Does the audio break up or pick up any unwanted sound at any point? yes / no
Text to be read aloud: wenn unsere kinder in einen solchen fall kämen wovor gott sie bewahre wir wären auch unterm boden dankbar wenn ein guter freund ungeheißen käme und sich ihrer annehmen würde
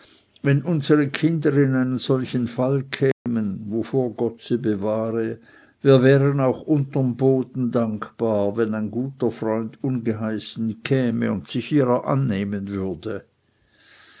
yes